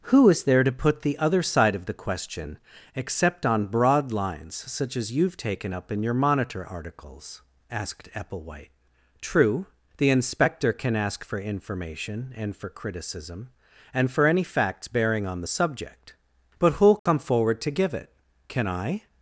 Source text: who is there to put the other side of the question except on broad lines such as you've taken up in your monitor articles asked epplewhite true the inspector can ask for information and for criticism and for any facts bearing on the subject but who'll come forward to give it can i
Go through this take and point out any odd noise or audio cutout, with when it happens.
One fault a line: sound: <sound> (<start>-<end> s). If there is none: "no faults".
sound: dropout (17.0-17.1 s)